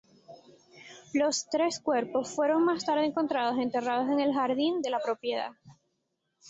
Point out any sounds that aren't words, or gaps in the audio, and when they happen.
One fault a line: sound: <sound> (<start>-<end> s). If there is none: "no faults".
no faults